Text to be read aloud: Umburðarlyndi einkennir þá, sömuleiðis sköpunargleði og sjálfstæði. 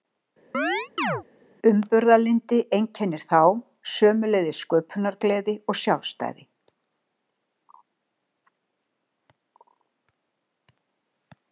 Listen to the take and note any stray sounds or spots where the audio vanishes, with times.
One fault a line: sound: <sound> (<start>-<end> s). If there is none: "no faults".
sound: chirp (0.5-1.2 s)